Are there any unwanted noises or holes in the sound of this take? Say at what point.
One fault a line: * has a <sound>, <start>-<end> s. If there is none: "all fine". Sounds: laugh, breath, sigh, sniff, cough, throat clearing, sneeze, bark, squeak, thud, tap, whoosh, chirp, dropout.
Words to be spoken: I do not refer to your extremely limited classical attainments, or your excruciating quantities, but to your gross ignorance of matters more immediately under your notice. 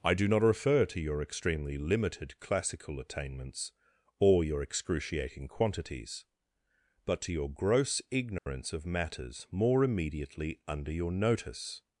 * has a dropout, 8.4-8.5 s